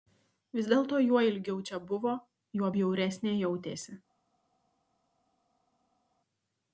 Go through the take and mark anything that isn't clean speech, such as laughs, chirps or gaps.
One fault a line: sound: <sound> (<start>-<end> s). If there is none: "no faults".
no faults